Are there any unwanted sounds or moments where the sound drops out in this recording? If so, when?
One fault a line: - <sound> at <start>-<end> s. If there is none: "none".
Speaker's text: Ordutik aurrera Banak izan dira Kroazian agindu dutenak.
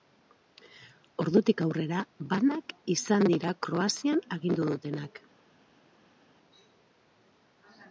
none